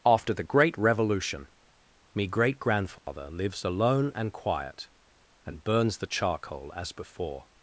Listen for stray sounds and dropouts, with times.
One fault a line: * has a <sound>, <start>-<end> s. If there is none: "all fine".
* has a dropout, 3.0-3.1 s